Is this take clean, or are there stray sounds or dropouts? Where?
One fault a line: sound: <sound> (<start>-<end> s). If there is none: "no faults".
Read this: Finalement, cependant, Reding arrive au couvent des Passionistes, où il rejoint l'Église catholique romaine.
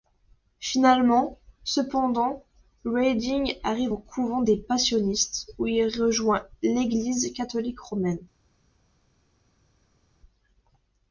no faults